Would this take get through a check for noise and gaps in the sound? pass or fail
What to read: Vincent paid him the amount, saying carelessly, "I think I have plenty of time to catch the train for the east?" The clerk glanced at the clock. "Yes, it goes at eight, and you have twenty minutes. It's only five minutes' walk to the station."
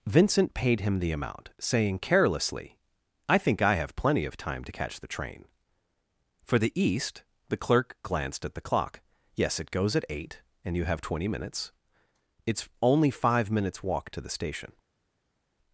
pass